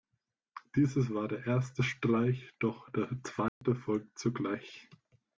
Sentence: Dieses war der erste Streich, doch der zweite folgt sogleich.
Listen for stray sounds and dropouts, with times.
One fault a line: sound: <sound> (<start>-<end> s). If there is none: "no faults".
sound: dropout (3.5-3.6 s)